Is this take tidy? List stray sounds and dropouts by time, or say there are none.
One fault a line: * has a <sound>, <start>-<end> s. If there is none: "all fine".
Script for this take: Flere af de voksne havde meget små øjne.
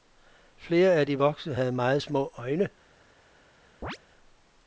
* has a chirp, 3.8-4.0 s